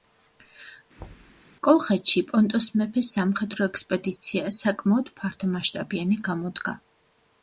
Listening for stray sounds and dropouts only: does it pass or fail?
fail